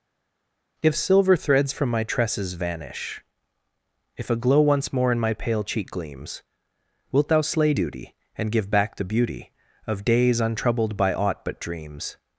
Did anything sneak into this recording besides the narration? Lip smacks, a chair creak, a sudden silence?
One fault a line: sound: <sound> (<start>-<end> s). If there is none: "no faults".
no faults